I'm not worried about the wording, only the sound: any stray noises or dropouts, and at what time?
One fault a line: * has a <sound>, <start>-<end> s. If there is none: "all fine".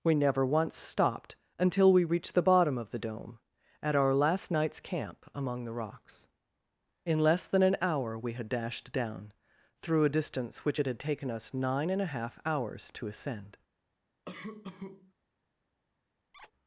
* has a cough, 14.3-15.1 s
* has a squeak, 16.3-16.5 s